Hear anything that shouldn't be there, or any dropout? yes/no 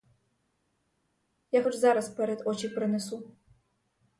no